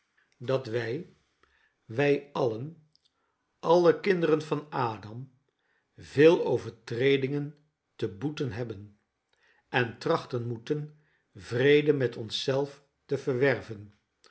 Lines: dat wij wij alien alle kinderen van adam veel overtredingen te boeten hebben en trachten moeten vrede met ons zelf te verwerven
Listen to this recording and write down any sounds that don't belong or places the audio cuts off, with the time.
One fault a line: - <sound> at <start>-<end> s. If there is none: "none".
none